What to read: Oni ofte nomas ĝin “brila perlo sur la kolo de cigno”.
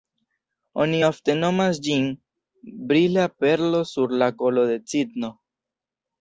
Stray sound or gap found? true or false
false